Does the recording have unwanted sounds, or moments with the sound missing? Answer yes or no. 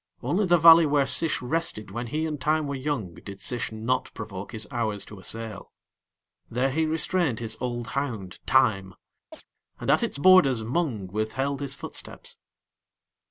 yes